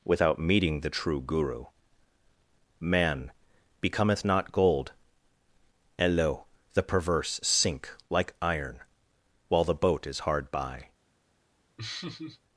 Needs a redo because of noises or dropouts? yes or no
yes